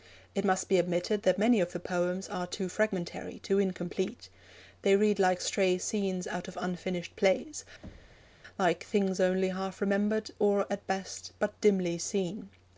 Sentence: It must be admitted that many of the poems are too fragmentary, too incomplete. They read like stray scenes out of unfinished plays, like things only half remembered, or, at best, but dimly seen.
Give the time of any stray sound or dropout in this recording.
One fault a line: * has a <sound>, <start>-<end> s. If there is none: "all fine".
* has a thud, 7.8-8.3 s